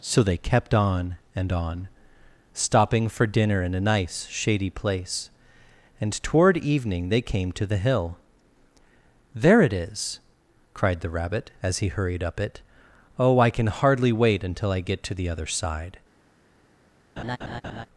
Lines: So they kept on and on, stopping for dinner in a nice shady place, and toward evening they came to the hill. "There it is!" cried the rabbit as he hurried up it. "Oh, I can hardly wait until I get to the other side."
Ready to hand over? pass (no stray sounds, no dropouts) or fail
fail